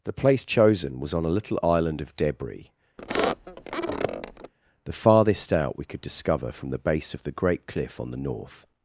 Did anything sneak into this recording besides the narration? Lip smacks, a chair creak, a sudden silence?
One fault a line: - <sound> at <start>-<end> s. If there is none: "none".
- squeak at 3.0-4.5 s